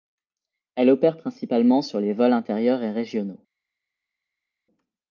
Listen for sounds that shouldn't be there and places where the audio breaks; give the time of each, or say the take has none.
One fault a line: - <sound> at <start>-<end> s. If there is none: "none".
none